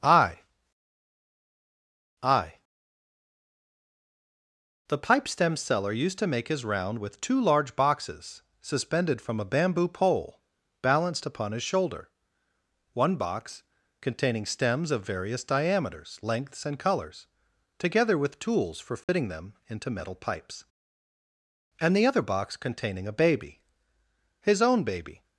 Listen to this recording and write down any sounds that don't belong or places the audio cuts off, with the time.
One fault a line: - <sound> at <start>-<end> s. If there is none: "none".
- dropout at 19.0-19.1 s